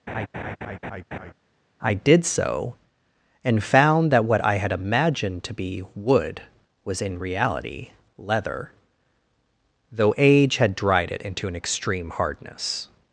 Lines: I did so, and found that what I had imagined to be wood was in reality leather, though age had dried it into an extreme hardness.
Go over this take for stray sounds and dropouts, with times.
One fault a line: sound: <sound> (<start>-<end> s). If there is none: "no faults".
sound: laugh (0.1-1.3 s)